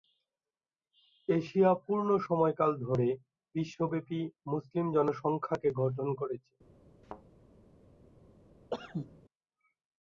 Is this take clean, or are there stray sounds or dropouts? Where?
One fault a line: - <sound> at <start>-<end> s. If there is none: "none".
- thud at 7.0-7.2 s
- cough at 8.7-9.2 s